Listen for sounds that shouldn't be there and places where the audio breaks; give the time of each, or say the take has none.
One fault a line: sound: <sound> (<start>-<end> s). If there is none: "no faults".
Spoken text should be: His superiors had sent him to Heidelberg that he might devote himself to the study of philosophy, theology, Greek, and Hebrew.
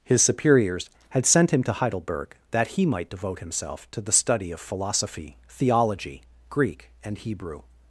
no faults